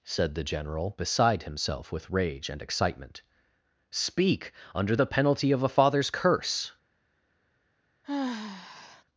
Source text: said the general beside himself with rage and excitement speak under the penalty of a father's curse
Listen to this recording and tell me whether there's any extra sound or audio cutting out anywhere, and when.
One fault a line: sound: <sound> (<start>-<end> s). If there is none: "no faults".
sound: sigh (8.0-9.0 s)